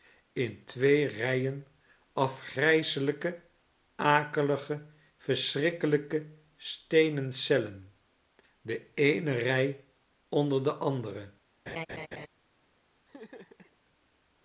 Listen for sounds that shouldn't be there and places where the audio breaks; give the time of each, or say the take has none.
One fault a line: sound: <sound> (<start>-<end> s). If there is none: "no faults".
sound: laugh (11.7-12.3 s)
sound: laugh (13.1-13.8 s)